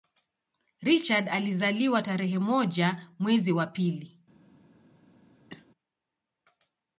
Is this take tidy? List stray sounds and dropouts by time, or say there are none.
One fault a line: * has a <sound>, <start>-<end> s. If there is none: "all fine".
* has a cough, 5.5-5.7 s